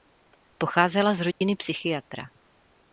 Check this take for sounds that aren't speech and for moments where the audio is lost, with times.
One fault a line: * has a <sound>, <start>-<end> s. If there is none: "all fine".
* has a dropout, 1.3-1.4 s